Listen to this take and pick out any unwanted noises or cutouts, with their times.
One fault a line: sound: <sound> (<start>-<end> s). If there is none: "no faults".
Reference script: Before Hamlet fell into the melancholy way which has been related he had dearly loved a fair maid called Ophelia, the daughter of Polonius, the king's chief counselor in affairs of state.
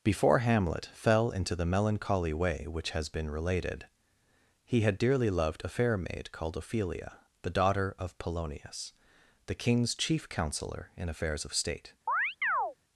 sound: chirp (12.1-12.8 s)